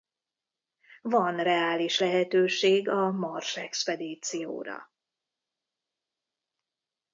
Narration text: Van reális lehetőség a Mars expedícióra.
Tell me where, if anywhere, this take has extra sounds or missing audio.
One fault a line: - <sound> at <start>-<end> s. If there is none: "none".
none